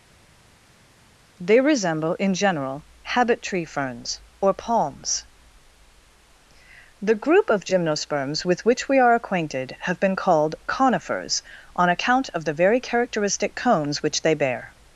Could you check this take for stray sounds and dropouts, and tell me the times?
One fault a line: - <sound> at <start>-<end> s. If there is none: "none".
none